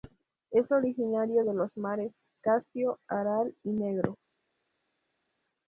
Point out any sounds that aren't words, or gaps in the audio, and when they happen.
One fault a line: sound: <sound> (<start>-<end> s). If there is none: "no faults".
no faults